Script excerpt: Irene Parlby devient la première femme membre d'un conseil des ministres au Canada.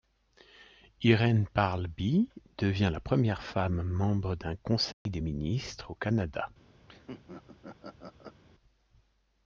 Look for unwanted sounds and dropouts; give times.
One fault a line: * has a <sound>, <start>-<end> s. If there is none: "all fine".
* has a dropout, 4.9-5.1 s
* has a laugh, 6.9-8.4 s